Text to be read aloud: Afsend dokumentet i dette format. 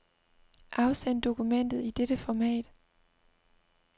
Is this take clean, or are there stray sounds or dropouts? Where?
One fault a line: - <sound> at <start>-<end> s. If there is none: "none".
none